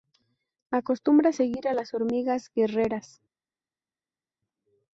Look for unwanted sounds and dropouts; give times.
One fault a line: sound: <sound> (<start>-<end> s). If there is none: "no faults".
no faults